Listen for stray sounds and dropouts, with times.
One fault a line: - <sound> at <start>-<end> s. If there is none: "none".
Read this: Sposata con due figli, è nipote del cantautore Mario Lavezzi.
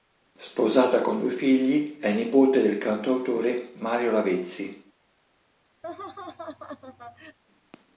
- laugh at 5.8-7.4 s